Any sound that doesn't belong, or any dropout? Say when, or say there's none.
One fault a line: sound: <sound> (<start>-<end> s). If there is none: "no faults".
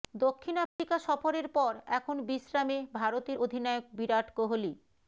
sound: dropout (0.7-0.8 s)